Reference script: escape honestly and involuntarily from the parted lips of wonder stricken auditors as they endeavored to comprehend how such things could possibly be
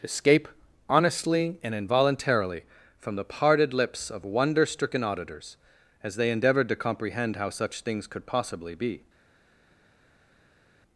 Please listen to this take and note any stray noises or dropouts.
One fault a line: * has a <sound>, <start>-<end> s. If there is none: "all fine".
all fine